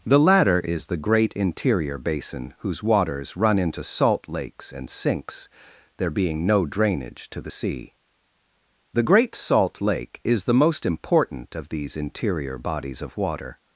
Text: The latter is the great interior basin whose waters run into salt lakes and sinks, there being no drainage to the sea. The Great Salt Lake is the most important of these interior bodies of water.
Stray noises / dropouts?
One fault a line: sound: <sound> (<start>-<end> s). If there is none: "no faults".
no faults